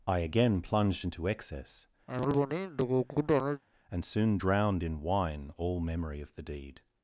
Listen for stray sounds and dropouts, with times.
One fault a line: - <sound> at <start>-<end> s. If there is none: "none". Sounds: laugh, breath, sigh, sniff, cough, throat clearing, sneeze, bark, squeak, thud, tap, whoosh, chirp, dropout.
- cough at 2.1-3.6 s